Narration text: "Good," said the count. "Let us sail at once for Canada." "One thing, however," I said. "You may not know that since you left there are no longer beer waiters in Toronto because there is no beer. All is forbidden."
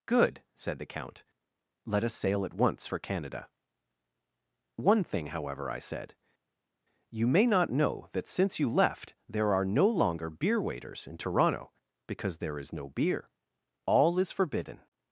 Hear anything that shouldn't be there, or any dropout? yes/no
no